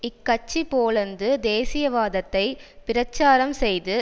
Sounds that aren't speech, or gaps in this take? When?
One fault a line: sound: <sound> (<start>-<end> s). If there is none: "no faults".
no faults